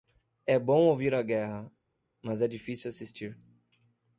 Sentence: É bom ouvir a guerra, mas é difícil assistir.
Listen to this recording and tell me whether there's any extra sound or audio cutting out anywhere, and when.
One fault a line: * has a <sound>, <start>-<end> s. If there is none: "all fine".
all fine